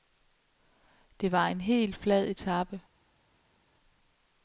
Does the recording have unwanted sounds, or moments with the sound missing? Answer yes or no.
no